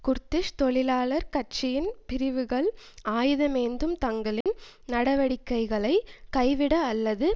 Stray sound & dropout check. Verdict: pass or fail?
fail